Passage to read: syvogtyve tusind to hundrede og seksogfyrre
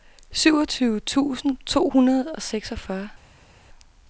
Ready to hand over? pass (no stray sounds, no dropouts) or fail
pass